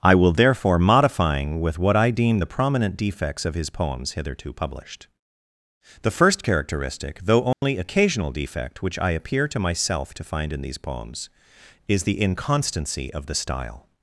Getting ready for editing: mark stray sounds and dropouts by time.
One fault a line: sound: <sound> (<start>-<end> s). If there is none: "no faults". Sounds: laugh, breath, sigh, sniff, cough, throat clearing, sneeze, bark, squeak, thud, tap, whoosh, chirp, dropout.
sound: dropout (7.5-7.6 s)